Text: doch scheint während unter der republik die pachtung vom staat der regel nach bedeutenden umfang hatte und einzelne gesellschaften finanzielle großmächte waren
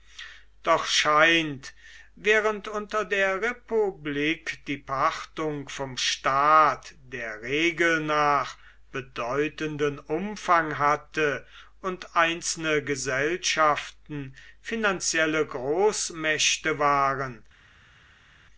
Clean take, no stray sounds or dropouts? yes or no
yes